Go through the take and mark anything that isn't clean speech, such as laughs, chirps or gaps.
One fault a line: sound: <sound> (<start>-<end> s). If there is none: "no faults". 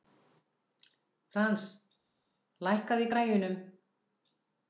no faults